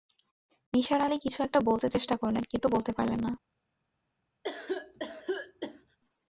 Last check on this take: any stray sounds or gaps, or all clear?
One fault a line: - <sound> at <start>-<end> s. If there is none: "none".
- cough at 4.4-6.0 s